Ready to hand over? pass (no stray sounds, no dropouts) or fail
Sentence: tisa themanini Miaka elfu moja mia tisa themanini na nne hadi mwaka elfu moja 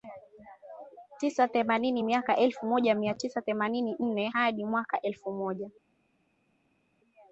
pass